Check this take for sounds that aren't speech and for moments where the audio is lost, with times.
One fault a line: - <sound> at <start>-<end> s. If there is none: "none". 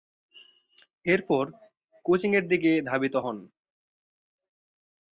none